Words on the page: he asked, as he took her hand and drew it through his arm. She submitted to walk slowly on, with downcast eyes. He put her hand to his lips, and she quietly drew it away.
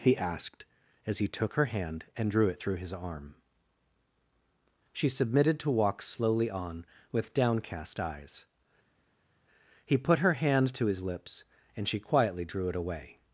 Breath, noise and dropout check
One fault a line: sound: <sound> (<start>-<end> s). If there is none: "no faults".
no faults